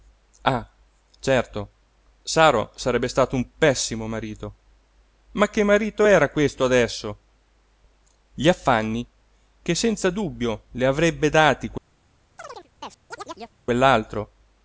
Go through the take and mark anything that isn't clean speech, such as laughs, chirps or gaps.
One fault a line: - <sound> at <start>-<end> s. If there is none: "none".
- chirp at 12.4-13.6 s